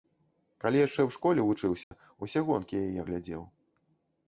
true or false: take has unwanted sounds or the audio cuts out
true